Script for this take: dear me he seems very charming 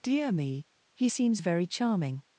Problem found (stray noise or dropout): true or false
false